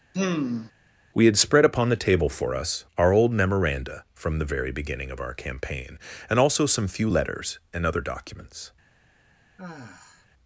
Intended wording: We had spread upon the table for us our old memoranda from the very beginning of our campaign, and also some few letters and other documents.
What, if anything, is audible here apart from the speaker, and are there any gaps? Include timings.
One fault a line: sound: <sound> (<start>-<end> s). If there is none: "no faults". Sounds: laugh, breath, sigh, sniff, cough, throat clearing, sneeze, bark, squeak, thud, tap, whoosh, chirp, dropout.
sound: sigh (0.1-0.7 s)
sound: sigh (9.6-10.3 s)